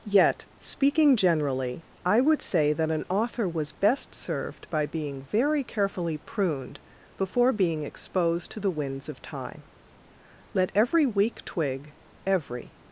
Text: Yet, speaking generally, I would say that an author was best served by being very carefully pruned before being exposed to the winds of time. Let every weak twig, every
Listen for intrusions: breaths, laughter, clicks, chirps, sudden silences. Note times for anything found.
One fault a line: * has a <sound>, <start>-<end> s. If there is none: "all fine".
all fine